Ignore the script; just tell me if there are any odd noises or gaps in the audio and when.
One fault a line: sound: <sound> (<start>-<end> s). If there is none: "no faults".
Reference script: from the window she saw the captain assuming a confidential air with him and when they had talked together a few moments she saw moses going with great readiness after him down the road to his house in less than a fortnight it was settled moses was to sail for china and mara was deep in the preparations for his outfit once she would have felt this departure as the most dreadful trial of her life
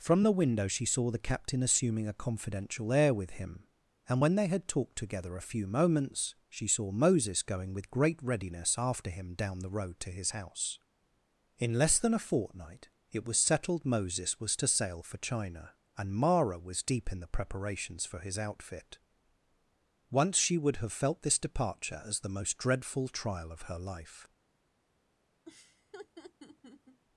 sound: laugh (25.5-27.0 s)